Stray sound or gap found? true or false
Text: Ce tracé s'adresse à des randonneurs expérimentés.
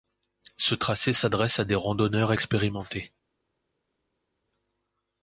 false